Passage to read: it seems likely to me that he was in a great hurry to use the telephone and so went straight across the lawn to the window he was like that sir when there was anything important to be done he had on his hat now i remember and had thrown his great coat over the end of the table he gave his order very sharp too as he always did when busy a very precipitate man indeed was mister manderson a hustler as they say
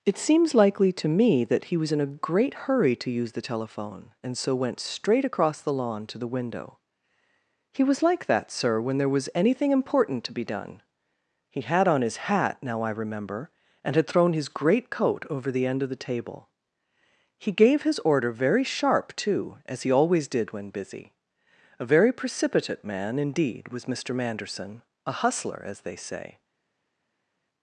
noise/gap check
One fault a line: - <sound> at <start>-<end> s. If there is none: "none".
none